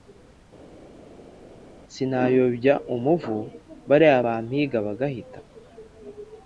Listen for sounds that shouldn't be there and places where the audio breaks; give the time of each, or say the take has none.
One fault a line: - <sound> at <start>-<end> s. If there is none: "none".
none